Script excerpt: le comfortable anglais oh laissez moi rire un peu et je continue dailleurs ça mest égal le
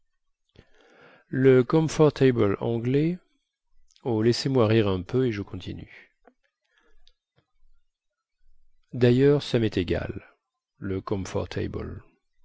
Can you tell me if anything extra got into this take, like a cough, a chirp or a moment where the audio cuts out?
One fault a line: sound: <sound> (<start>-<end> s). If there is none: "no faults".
no faults